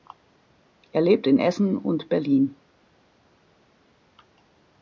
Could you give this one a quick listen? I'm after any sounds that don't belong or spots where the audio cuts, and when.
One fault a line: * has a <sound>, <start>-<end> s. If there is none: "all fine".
all fine